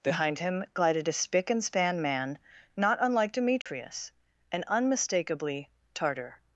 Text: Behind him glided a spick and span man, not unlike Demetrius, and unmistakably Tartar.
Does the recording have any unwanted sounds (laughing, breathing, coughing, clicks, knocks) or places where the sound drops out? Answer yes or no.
yes